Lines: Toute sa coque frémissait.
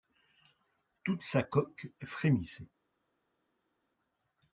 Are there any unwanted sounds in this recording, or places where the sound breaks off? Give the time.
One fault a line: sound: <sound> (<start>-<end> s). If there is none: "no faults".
no faults